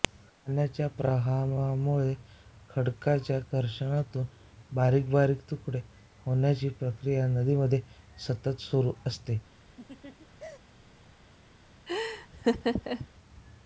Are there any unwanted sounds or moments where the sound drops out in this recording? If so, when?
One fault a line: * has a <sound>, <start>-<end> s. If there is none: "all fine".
* has a laugh, 9.8-10.6 s
* has a laugh, 11.9-13.1 s